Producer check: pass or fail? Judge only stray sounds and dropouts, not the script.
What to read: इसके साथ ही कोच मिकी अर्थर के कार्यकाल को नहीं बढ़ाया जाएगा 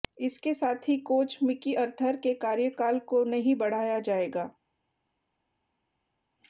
pass